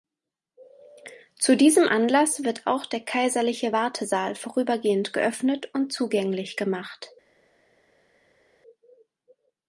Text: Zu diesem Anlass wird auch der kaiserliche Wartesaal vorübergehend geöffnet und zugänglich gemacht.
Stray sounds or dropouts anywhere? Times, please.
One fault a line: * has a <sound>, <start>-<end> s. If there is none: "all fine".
all fine